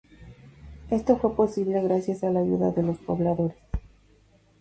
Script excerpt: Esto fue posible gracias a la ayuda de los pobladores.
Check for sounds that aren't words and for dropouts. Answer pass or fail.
pass